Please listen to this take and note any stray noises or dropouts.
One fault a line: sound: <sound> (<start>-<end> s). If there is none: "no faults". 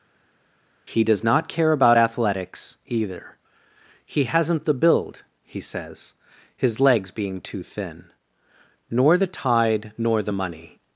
no faults